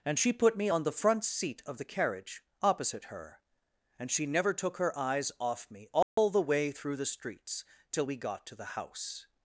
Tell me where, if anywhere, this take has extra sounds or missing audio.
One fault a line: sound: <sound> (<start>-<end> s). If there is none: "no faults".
sound: dropout (6.0-6.2 s)